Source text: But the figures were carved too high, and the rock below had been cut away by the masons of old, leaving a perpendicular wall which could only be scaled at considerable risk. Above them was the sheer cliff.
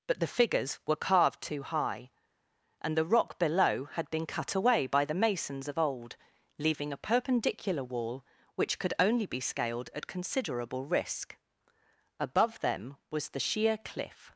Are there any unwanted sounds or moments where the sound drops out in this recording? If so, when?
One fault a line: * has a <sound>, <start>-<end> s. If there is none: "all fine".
all fine